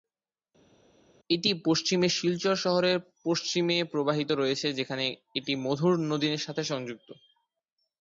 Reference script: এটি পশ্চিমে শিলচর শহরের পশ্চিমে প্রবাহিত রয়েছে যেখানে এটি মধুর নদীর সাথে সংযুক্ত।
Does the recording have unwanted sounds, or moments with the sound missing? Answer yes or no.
no